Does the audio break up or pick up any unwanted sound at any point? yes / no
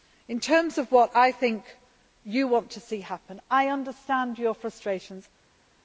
no